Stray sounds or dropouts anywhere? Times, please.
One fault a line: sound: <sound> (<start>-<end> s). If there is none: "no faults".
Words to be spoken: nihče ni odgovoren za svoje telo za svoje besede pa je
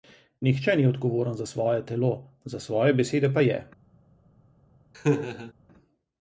sound: laugh (4.9-5.5 s)